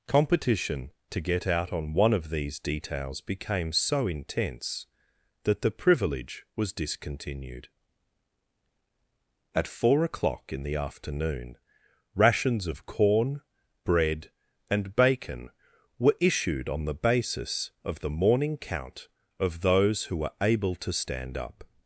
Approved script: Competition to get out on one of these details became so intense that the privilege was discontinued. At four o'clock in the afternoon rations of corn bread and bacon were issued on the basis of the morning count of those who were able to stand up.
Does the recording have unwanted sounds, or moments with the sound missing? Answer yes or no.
no